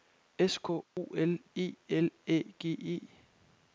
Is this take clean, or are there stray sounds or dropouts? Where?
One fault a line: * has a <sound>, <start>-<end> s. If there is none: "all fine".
* has a dropout, 0.8-1.0 s